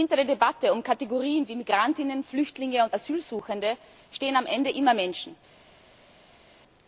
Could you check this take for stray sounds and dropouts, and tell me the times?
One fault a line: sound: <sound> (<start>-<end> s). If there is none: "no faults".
no faults